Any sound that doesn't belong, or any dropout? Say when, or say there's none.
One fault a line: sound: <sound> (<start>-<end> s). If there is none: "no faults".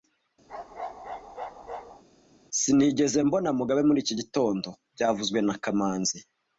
sound: bark (0.5-2.0 s)